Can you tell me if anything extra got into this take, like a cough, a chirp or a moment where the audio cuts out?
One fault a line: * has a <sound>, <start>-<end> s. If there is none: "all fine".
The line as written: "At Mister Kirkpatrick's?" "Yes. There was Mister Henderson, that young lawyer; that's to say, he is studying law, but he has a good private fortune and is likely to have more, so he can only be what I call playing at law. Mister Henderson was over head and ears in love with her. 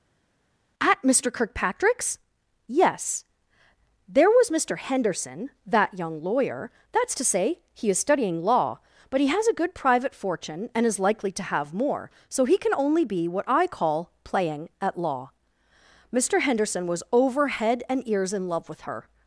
all fine